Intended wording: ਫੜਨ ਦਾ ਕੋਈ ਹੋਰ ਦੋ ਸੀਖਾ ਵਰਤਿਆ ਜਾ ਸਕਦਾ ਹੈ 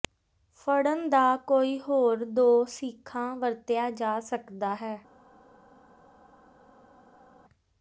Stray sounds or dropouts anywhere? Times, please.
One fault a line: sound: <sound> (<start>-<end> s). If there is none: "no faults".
no faults